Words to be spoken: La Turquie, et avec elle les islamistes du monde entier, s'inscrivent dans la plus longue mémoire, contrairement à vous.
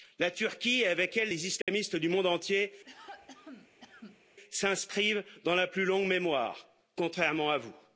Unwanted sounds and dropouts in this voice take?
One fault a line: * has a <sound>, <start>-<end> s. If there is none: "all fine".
* has a dropout, 1.6-1.7 s
* has a cough, 2.8-4.2 s